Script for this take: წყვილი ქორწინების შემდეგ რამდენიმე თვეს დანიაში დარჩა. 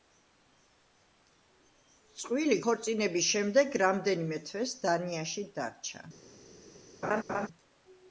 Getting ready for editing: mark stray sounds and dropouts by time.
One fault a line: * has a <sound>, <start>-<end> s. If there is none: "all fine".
* has a laugh, 7.0-7.5 s